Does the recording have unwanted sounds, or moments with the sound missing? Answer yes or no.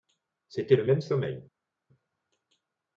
no